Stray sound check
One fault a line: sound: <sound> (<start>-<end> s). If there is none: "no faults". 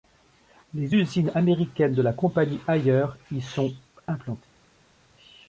no faults